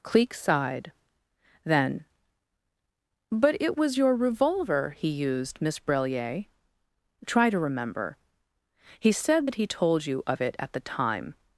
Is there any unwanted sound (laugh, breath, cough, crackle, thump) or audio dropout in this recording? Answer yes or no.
no